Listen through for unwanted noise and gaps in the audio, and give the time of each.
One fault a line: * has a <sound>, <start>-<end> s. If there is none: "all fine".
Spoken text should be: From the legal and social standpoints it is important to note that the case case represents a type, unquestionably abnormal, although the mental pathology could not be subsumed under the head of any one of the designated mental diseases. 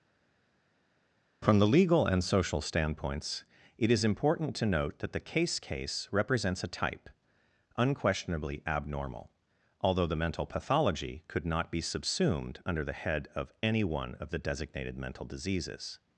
all fine